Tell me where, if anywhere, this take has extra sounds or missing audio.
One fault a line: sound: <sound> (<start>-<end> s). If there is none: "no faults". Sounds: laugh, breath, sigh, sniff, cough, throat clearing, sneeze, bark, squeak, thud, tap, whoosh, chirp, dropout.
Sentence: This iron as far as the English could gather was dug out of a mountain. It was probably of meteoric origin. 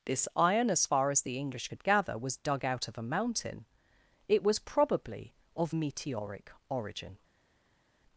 no faults